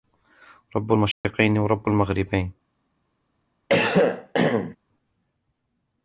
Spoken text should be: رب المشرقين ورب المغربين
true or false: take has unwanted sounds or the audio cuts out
true